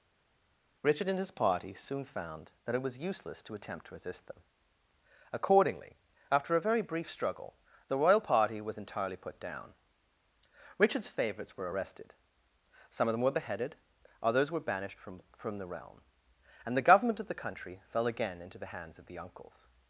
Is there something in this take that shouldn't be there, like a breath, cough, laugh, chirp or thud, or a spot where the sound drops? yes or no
no